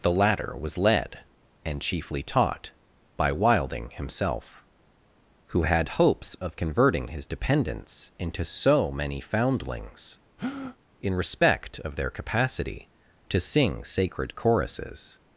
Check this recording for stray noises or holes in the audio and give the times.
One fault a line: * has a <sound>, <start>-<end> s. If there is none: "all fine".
* has a breath, 10.4-10.8 s